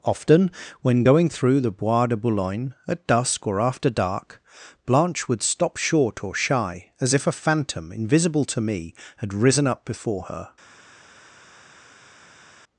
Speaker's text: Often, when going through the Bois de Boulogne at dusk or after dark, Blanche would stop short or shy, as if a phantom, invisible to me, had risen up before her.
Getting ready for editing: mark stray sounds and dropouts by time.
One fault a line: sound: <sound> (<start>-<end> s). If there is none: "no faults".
no faults